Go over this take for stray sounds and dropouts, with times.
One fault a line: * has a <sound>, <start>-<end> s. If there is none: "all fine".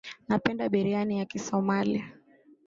all fine